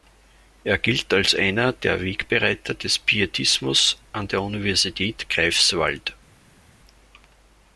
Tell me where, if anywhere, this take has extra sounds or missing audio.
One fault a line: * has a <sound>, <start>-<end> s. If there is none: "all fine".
all fine